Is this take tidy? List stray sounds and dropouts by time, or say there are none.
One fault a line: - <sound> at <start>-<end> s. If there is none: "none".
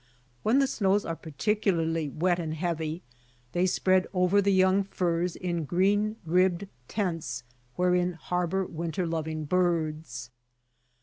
none